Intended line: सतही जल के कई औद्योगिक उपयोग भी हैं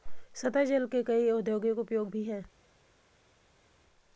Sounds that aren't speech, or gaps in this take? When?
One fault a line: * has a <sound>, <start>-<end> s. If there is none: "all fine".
all fine